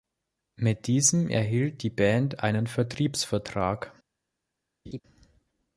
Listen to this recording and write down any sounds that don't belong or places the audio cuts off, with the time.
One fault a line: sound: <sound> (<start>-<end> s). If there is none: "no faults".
sound: laugh (4.9-5.0 s)